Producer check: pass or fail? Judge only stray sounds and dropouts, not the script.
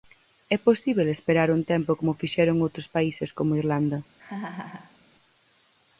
fail